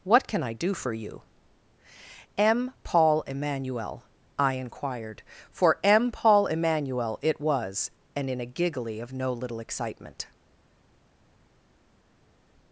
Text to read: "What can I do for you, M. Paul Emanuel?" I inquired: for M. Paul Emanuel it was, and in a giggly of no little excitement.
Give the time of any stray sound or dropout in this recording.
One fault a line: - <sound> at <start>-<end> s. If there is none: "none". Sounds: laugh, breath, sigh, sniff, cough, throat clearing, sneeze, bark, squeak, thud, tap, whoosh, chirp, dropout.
none